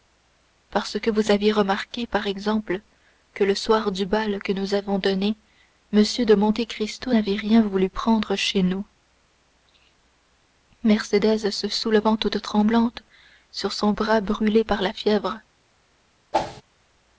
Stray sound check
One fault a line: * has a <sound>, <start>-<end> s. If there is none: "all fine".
* has a whoosh, 16.3-16.6 s